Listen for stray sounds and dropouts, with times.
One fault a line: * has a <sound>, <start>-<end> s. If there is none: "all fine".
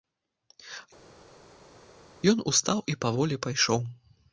all fine